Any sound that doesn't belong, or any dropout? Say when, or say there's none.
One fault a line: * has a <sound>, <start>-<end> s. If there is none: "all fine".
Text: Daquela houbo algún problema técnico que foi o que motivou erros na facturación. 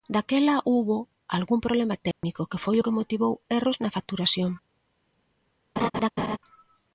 * has a dropout, 2.1-2.2 s
* has a laugh, 5.8-6.4 s